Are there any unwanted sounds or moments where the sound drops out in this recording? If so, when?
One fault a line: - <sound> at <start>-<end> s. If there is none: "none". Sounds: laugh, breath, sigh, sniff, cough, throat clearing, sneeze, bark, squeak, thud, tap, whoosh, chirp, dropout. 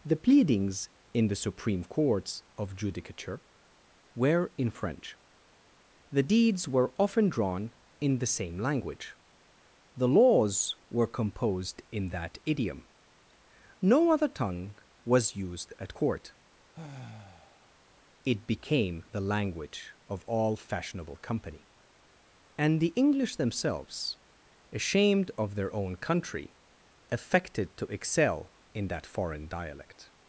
- sigh at 16.7-17.8 s